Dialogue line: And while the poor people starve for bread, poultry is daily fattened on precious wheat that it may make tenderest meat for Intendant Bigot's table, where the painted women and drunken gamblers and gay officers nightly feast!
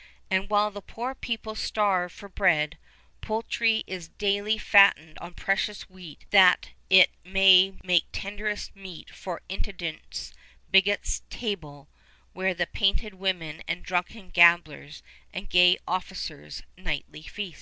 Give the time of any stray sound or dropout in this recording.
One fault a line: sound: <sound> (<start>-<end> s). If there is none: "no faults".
no faults